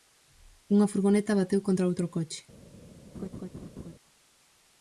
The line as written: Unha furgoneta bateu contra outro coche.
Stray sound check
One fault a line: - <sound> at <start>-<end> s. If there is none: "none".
- laugh at 3.1-3.9 s